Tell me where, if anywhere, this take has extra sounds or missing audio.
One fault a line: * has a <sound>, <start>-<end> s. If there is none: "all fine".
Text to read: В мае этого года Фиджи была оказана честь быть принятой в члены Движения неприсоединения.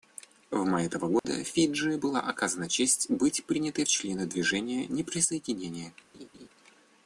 * has a dropout, 1.2-1.2 s
* has a laugh, 6.1-6.5 s